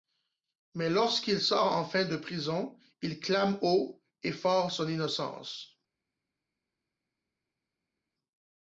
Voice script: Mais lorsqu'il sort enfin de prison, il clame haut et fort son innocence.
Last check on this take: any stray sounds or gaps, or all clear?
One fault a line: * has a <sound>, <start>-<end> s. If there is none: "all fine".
all fine